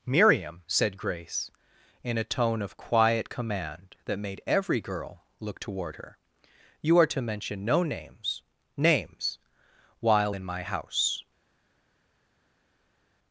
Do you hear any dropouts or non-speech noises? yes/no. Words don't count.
no